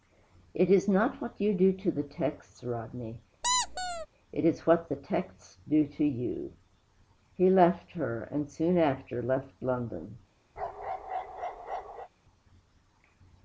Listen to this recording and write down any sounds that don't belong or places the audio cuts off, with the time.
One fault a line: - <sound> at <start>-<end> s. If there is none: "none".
- squeak at 3.4-4.1 s
- bark at 10.6-12.1 s